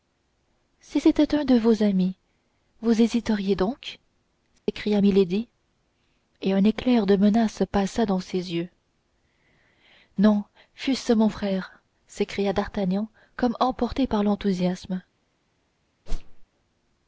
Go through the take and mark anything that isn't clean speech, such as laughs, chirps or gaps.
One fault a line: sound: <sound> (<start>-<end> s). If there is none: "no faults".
sound: dropout (4.6-4.7 s)
sound: whoosh (16.1-16.5 s)